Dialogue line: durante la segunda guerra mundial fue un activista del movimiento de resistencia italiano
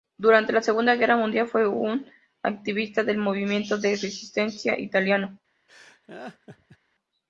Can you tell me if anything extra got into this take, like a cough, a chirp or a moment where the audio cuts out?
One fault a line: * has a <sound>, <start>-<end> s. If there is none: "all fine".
* has a laugh, 5.7-6.8 s